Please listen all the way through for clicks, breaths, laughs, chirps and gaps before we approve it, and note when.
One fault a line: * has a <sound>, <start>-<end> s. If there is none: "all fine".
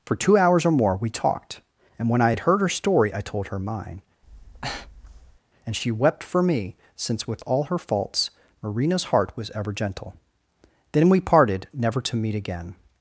* has a breath, 4.2-5.4 s